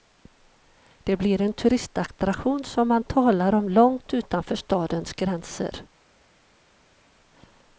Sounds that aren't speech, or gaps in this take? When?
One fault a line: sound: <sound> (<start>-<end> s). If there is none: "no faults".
no faults